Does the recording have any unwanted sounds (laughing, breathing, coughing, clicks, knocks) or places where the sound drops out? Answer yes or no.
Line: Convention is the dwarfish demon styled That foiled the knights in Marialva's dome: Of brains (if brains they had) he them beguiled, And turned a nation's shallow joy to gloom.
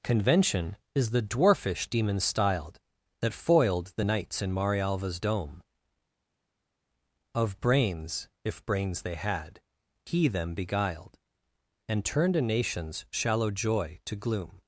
no